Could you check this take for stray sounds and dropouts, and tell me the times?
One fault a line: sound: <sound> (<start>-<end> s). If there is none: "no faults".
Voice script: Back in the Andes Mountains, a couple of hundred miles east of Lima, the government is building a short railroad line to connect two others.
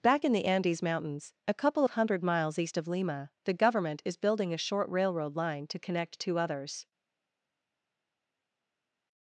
no faults